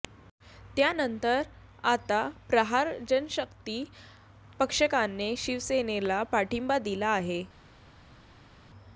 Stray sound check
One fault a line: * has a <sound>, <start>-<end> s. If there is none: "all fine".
all fine